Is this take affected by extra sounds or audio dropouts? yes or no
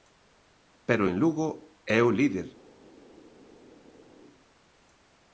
no